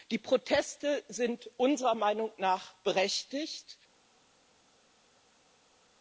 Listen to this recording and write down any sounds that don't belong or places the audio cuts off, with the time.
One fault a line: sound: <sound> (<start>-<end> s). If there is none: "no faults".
no faults